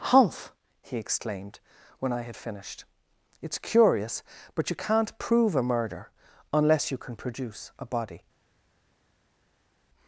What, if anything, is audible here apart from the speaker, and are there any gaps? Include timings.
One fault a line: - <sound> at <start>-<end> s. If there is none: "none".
none